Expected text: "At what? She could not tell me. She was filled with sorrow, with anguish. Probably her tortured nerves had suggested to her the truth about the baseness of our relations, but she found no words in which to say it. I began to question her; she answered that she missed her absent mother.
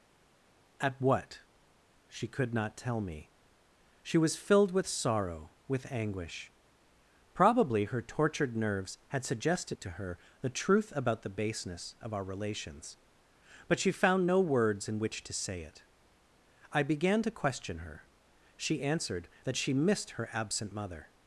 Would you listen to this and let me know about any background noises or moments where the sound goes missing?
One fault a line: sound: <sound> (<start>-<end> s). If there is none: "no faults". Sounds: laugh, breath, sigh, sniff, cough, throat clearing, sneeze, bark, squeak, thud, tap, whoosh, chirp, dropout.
no faults